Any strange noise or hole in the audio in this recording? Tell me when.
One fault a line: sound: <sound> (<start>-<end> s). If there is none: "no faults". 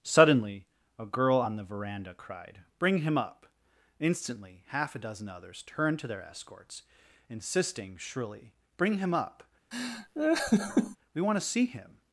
sound: laugh (9.7-11.0 s)